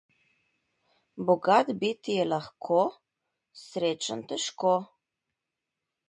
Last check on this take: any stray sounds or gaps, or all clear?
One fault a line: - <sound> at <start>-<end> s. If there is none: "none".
none